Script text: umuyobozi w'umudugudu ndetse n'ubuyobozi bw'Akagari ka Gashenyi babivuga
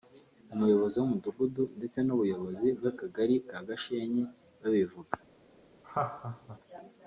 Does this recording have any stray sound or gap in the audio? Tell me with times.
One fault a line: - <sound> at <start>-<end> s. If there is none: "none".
- laugh at 5.8-6.6 s